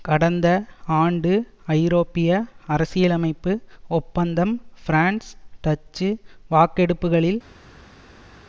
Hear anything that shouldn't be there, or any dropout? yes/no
no